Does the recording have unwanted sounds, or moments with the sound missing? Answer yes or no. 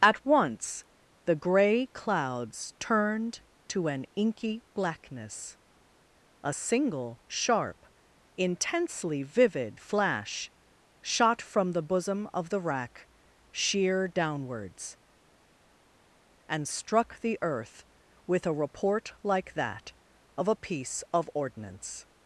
no